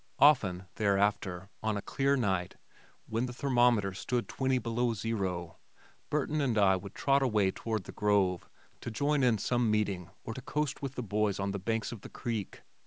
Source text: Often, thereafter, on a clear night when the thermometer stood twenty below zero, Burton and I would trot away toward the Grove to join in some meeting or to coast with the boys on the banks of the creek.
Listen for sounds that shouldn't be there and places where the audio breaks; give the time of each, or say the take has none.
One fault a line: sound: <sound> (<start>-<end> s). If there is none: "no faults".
no faults